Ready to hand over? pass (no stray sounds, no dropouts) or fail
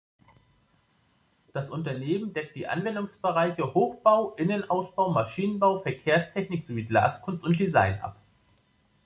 pass